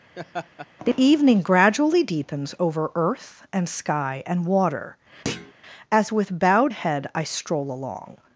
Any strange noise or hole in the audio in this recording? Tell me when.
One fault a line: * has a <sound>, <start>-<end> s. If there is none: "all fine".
* has a laugh, 0.2-0.7 s
* has a thud, 5.2-5.5 s